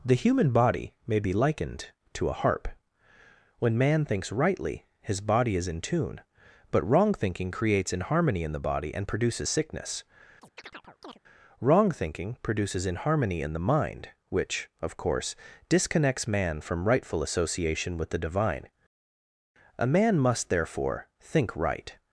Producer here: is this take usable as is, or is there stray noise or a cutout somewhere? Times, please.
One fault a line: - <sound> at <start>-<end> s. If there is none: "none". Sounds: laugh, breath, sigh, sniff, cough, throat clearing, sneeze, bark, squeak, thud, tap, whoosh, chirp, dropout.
- chirp at 10.4-11.2 s